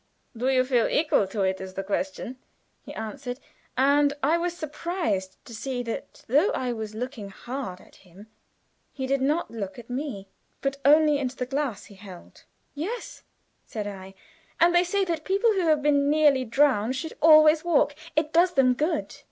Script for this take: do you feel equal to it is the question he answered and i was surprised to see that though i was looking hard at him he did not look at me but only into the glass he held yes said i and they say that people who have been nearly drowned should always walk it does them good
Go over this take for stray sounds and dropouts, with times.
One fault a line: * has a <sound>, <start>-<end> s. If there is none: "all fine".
all fine